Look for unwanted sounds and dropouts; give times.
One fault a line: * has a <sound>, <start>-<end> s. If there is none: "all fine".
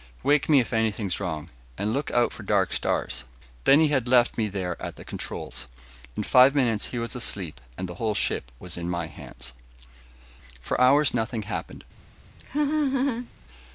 * has a laugh, 12.4-13.3 s